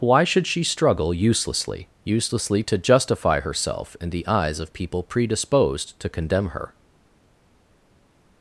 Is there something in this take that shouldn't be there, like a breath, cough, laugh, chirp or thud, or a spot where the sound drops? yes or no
no